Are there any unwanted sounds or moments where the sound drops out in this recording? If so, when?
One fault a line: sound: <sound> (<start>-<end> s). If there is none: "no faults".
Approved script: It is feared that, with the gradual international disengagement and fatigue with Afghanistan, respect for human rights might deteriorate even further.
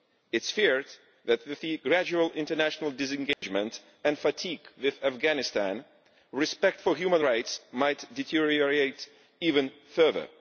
sound: dropout (3.3-3.4 s)